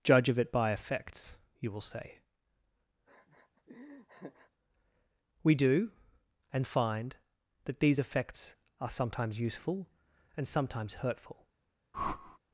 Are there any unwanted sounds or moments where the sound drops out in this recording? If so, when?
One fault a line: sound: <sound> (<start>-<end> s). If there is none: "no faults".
sound: laugh (3.1-4.5 s)
sound: whoosh (11.9-12.4 s)